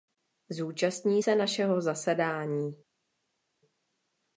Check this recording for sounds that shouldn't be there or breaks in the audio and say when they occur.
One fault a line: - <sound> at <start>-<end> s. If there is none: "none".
none